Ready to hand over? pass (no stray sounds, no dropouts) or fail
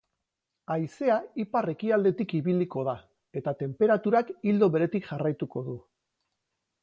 pass